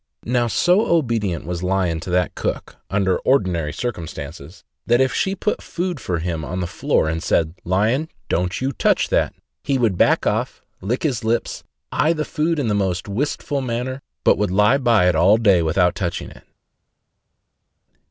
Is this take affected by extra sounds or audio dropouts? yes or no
no